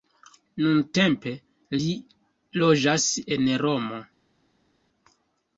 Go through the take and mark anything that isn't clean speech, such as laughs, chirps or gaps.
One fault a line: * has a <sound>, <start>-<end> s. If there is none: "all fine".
all fine